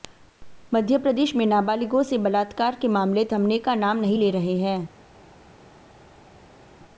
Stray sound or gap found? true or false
false